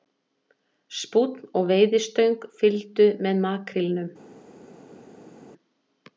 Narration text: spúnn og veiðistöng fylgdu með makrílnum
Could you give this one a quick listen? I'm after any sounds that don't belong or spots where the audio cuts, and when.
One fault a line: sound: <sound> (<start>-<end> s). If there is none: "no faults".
no faults